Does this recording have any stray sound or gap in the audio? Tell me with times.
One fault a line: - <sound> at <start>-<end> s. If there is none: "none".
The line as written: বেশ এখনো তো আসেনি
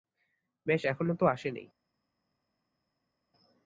none